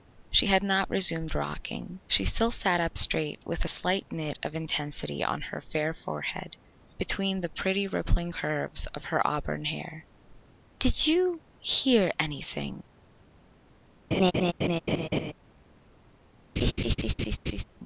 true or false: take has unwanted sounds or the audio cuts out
true